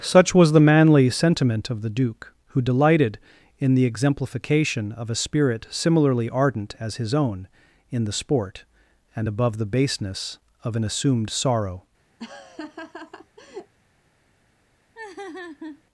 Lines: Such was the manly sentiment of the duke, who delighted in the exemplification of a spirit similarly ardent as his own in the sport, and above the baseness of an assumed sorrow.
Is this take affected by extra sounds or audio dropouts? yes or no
yes